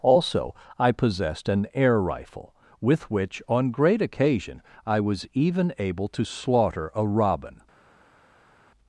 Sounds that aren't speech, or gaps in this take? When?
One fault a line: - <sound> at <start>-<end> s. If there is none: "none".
none